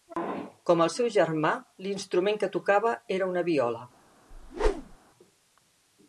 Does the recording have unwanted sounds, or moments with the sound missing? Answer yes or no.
yes